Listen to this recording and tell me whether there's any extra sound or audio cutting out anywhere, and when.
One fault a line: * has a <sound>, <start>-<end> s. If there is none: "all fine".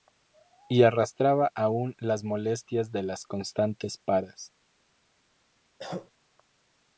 * has a cough, 5.8-6.1 s